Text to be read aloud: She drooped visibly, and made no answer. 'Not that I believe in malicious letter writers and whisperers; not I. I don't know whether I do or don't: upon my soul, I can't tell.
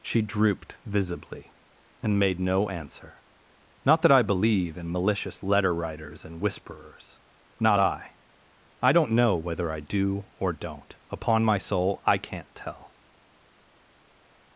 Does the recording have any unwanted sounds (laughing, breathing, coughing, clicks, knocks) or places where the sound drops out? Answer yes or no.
no